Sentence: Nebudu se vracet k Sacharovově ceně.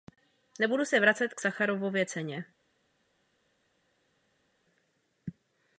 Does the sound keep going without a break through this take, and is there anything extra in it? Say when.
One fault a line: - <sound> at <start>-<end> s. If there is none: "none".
none